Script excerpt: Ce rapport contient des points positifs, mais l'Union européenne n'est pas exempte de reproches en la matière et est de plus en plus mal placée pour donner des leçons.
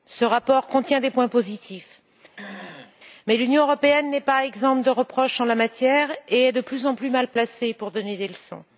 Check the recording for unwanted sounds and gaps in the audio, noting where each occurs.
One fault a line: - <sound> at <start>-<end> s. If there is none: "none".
- throat clearing at 2.4-3.0 s